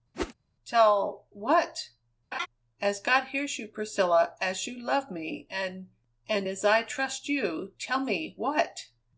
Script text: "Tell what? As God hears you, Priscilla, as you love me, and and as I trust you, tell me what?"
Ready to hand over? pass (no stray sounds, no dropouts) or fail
fail